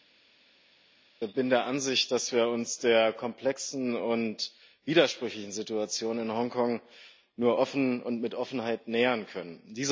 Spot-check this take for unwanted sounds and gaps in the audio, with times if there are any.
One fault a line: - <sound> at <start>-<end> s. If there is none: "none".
none